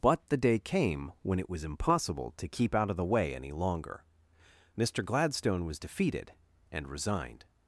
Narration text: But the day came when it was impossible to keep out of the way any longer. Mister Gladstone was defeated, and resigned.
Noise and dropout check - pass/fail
pass